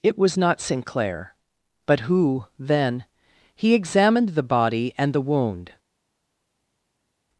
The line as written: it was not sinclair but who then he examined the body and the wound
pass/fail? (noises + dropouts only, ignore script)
pass